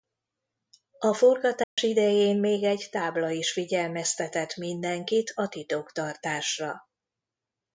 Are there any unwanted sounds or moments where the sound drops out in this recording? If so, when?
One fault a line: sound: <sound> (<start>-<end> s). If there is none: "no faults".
sound: dropout (1.6-1.8 s)